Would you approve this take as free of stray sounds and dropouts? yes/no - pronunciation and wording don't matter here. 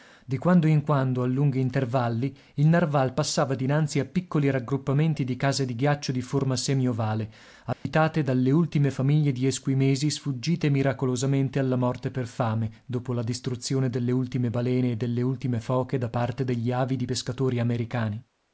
no